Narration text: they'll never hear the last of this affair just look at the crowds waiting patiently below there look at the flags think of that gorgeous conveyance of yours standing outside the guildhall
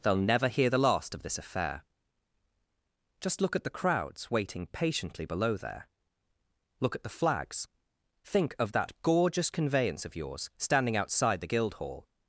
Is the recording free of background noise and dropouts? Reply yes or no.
yes